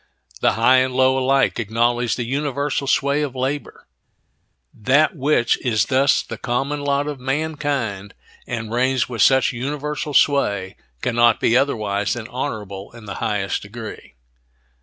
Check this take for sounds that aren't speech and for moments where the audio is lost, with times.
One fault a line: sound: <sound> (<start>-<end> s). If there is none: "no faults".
no faults